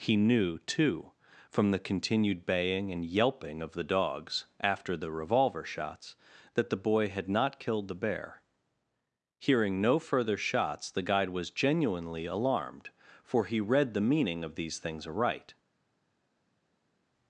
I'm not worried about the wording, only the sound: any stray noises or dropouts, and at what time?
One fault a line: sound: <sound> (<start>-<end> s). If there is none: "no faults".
no faults